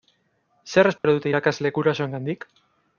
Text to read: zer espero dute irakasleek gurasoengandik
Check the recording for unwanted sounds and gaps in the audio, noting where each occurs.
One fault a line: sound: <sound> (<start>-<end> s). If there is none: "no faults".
sound: dropout (1.0-1.0 s)